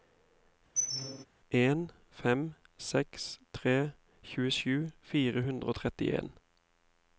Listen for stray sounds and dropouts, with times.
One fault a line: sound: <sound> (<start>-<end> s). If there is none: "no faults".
sound: squeak (0.8-1.3 s)